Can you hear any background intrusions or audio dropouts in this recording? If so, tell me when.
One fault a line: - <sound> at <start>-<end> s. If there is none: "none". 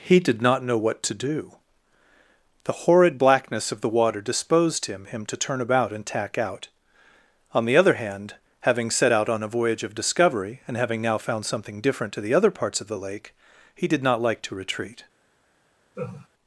- laugh at 15.9-16.3 s